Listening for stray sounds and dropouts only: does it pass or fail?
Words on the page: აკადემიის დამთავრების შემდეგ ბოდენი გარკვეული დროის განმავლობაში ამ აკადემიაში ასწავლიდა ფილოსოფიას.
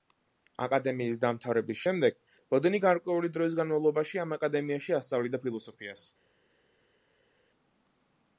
pass